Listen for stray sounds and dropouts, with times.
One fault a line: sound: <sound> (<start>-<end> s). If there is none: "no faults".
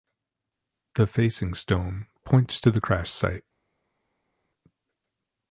no faults